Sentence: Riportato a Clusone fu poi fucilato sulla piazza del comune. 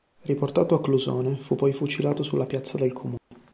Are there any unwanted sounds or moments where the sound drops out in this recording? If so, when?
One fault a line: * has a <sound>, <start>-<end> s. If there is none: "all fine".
* has a dropout, 3.2-3.3 s